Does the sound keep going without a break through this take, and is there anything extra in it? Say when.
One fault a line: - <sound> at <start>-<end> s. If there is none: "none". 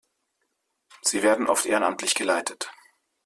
none